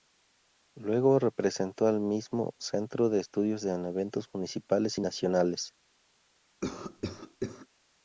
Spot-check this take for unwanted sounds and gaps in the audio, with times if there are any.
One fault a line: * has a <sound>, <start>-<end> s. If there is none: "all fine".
* has a cough, 6.6-7.7 s